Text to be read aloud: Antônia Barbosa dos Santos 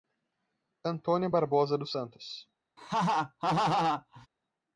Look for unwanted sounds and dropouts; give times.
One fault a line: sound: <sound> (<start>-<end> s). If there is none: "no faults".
sound: laugh (2.8-4.3 s)